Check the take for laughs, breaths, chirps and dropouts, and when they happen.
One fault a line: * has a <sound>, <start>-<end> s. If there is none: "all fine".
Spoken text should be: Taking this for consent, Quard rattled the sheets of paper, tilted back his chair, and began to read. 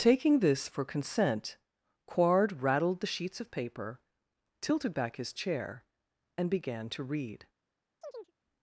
* has a chirp, 8.0-8.3 s